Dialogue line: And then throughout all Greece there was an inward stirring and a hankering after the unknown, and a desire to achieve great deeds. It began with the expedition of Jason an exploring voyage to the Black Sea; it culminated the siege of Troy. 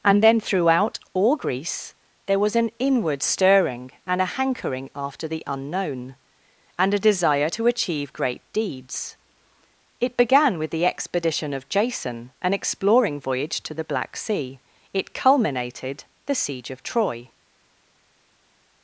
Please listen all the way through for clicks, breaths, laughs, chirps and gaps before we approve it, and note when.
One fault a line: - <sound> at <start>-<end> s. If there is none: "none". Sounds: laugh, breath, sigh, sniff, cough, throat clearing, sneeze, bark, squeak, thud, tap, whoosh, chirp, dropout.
none